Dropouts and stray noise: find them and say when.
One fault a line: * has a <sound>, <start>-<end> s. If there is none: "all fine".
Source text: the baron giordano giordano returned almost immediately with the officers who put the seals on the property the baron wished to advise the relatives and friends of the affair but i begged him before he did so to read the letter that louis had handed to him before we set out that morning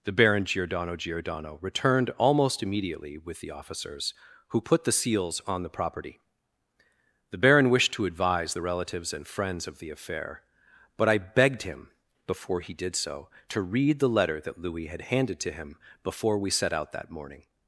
all fine